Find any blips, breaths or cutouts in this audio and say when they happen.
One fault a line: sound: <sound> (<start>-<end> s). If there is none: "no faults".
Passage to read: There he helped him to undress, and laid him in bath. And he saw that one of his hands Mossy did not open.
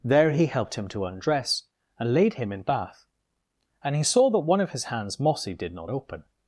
no faults